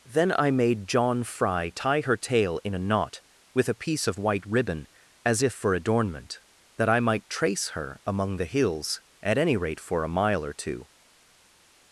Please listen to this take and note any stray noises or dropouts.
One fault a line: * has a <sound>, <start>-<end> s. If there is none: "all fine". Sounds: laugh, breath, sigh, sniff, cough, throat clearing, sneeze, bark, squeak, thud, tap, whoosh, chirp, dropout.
all fine